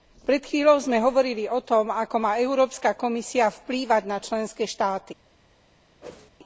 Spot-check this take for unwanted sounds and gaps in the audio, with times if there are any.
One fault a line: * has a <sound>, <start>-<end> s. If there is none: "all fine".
* has a whoosh, 6.0-6.3 s